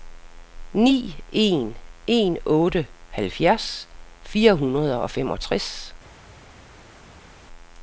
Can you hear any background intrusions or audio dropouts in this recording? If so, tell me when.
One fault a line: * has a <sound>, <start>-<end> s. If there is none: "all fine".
all fine